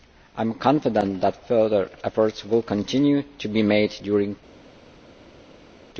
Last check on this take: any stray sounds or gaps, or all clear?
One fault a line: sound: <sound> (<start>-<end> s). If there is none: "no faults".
no faults